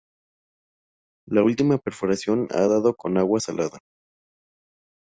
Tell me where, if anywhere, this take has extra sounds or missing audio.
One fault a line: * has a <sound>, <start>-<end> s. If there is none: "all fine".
all fine